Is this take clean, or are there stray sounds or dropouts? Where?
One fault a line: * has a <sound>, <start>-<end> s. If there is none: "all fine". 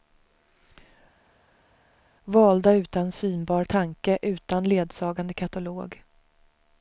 all fine